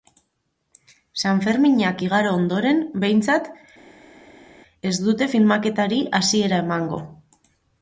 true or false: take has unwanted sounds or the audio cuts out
false